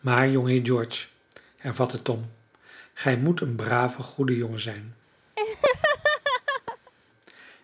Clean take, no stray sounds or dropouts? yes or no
no